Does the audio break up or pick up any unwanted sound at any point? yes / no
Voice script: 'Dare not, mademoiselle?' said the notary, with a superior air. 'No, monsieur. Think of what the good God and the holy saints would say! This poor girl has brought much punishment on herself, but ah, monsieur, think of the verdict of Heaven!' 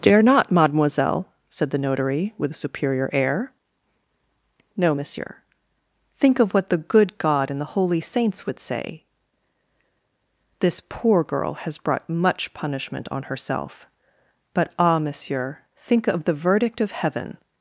no